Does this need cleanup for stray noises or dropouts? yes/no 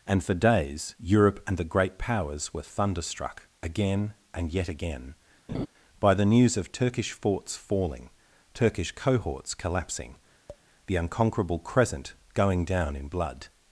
yes